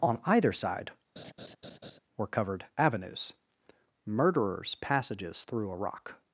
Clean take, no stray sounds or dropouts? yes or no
no